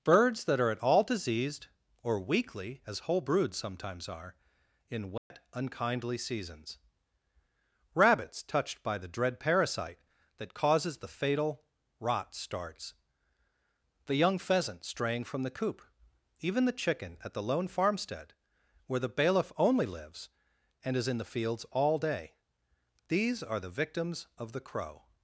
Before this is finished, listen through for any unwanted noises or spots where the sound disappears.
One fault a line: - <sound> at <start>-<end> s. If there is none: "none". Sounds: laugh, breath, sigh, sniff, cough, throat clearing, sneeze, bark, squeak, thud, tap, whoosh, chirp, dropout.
- dropout at 5.2-5.3 s